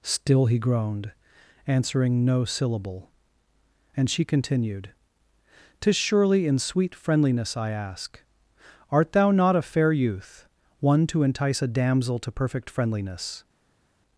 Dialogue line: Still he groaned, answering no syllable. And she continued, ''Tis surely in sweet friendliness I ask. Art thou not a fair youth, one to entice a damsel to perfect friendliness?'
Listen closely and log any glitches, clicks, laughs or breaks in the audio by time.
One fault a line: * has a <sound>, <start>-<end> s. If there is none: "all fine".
all fine